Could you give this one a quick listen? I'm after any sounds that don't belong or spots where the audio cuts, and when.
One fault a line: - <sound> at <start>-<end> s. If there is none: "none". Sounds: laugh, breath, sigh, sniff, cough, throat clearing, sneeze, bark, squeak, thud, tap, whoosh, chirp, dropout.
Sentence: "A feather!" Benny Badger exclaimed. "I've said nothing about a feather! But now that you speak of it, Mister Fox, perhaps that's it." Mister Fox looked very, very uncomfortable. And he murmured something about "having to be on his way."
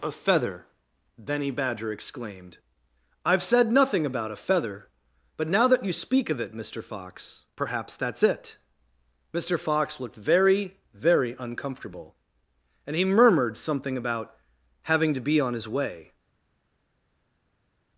none